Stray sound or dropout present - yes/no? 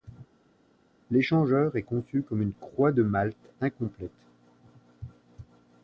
no